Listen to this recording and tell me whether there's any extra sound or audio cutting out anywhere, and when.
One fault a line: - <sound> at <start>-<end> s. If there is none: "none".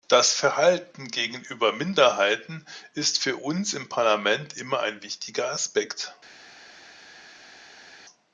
none